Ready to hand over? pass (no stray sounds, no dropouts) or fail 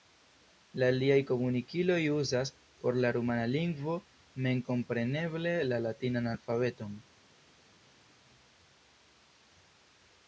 pass